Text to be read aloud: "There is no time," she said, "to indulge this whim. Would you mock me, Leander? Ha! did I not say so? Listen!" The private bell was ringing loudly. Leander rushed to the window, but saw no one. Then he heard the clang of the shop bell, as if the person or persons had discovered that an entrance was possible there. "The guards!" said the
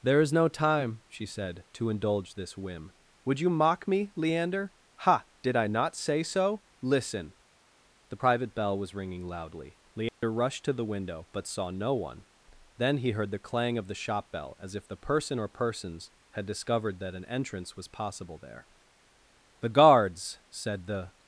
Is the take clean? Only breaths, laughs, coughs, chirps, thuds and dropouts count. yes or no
no